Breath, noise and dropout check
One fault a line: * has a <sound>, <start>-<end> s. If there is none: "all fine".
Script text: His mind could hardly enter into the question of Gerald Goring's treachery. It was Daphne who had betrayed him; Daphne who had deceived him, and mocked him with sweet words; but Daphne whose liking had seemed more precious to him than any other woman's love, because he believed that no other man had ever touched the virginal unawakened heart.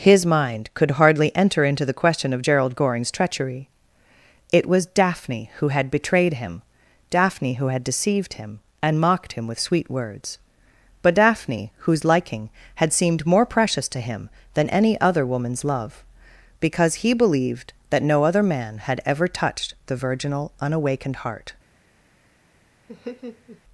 * has a laugh, 22.9-23.6 s